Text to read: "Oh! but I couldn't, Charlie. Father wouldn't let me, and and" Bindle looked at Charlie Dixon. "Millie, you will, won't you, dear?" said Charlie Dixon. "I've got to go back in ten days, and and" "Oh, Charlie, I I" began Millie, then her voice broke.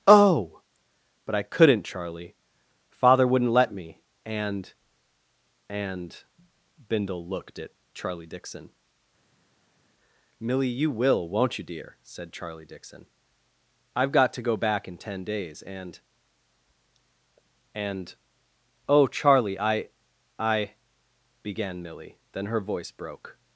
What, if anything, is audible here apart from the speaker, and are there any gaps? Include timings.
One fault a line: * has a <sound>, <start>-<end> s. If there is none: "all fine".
all fine